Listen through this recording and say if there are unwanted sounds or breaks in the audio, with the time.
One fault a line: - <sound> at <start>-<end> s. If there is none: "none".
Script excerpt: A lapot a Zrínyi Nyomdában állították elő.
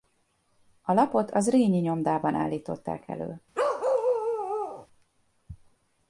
- bark at 3.5-4.9 s